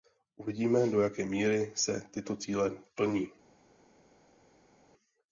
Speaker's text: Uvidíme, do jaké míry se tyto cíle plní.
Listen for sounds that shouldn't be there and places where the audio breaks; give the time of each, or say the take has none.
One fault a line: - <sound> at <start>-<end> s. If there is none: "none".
none